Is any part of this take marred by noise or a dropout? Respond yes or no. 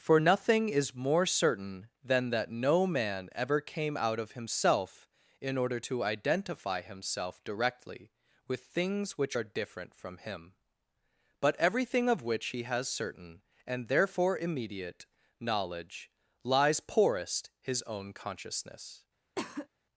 yes